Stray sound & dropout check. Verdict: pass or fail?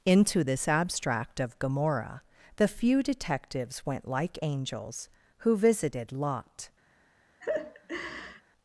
fail